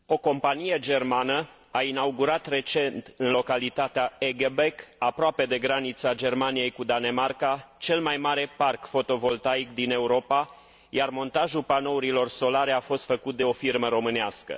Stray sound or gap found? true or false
false